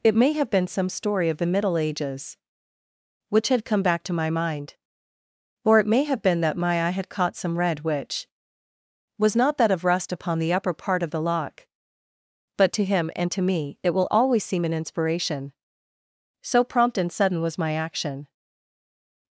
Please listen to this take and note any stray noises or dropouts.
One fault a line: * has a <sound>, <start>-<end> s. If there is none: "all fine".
all fine